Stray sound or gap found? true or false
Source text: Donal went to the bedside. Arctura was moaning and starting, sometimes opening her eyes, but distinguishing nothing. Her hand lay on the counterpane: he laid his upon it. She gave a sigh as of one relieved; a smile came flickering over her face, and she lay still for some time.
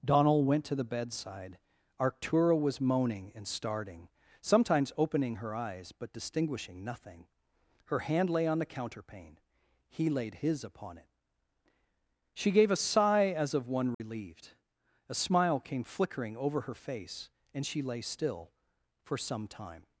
true